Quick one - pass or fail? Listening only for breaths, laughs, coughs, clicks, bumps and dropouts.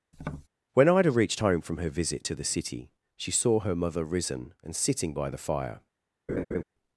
fail